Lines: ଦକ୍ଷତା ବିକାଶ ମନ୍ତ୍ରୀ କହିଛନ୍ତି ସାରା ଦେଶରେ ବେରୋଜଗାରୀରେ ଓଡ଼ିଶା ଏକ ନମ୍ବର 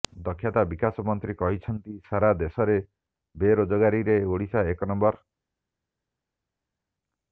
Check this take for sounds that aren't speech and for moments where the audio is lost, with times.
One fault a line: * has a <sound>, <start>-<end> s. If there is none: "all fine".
all fine